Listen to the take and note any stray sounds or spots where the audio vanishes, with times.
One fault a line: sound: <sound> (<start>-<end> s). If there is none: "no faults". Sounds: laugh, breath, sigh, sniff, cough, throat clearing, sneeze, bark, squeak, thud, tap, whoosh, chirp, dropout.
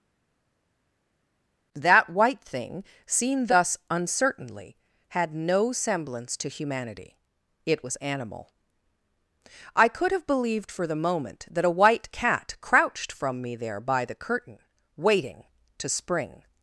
no faults